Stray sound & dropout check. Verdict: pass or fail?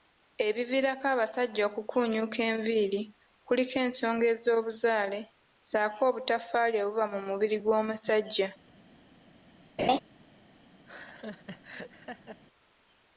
fail